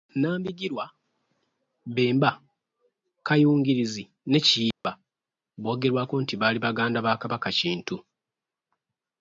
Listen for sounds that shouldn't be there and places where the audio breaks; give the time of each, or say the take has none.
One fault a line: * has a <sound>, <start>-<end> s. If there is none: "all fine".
* has a dropout, 4.7-4.8 s